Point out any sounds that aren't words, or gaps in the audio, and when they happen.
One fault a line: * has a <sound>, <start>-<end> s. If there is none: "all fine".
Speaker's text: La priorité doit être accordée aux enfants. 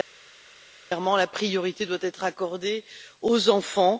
all fine